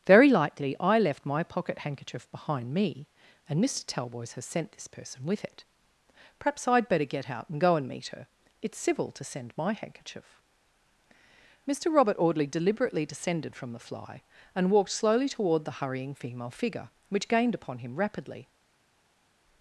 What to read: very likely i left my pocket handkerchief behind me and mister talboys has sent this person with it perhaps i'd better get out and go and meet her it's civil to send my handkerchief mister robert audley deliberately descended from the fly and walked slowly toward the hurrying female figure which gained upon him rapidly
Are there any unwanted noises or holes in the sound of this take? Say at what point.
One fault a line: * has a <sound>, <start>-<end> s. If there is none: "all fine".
all fine